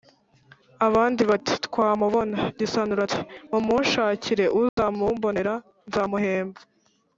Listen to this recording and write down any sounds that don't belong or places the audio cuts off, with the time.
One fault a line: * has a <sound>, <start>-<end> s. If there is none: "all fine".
* has a dropout, 4.7-4.8 s